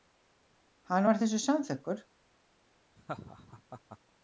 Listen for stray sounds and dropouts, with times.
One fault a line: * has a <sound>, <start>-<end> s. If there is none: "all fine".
* has a laugh, 3.0-4.0 s